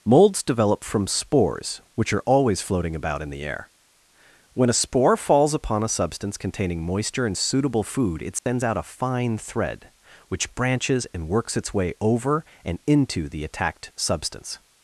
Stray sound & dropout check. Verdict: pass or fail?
fail